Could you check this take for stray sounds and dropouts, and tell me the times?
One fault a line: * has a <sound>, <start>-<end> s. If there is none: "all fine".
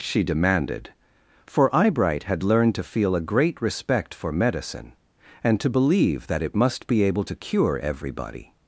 all fine